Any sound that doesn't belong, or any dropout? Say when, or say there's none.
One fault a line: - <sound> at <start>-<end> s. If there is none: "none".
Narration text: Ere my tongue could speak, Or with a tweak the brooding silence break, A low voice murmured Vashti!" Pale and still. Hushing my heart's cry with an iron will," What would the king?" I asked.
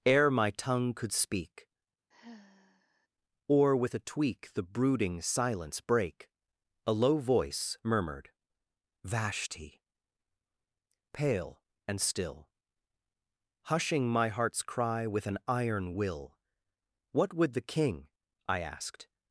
- sigh at 2.1-3.1 s